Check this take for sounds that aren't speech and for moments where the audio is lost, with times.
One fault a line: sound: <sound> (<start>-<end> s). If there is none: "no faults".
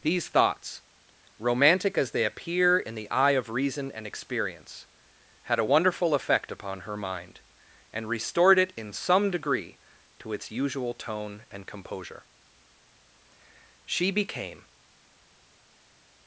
no faults